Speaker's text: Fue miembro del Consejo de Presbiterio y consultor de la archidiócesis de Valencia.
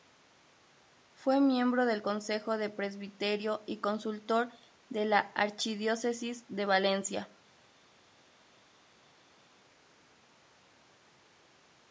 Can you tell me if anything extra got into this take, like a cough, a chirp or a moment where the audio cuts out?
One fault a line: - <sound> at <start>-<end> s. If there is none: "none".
none